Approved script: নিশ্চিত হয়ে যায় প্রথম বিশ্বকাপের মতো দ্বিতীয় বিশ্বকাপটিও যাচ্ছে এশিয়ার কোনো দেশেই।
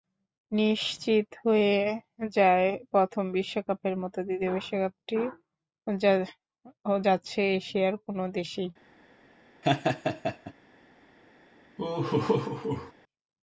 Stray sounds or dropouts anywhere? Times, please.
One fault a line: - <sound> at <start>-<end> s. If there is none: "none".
- laugh at 9.6-10.5 s
- laugh at 11.8-12.9 s